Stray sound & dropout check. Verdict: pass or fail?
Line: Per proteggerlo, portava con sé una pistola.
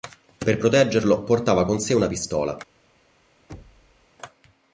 fail